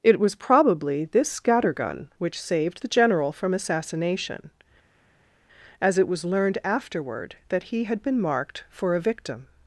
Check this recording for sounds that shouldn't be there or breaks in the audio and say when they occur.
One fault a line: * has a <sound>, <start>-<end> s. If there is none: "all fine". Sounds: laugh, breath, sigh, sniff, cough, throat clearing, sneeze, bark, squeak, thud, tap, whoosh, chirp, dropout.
all fine